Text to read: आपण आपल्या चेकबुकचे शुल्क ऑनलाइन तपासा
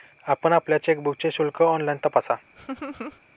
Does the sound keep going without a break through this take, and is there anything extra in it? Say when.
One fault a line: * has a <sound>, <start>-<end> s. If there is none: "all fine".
* has a laugh, 2.5-3.2 s